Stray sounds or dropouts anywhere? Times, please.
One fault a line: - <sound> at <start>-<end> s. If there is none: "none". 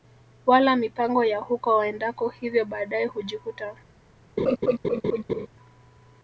- laugh at 4.4-5.5 s